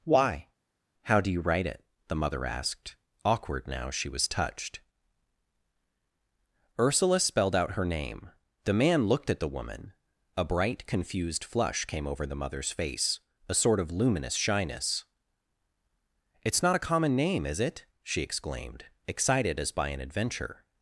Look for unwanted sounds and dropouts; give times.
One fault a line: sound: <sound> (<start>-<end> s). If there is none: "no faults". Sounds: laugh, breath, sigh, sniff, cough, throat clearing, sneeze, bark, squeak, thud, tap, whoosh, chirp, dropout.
no faults